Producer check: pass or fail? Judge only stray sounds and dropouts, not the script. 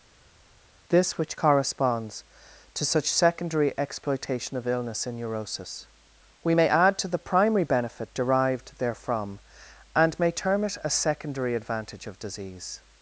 pass